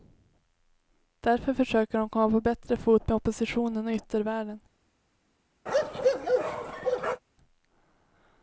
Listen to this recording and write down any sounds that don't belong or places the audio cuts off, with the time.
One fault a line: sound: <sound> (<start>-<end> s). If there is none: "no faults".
sound: bark (5.7-7.2 s)